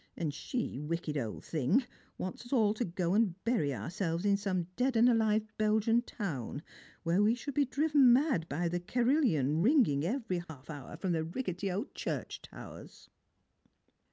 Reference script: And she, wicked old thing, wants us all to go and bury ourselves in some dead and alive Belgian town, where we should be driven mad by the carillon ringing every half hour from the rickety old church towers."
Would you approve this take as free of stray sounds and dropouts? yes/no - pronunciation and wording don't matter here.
no